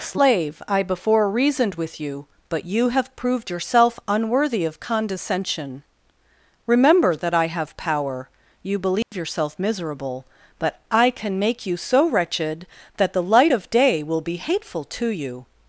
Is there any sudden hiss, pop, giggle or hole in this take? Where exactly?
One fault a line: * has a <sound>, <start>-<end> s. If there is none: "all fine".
* has a dropout, 9.0-9.1 s